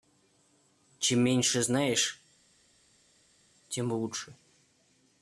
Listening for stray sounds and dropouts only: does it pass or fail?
pass